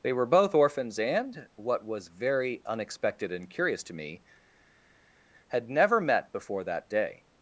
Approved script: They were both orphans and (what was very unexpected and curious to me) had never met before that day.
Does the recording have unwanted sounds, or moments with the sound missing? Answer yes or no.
no